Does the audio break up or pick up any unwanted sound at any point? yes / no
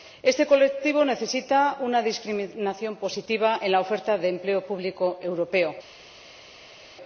no